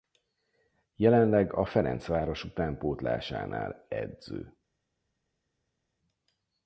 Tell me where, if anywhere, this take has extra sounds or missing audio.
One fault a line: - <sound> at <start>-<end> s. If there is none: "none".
none